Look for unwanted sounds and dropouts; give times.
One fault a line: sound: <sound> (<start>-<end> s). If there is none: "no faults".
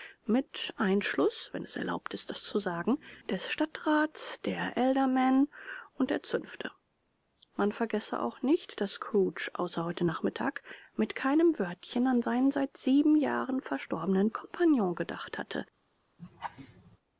sound: laugh (16.2-17.0 s)